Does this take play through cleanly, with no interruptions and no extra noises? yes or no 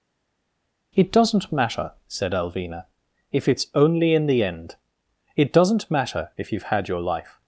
yes